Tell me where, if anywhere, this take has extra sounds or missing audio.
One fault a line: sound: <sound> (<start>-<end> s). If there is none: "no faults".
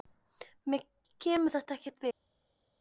no faults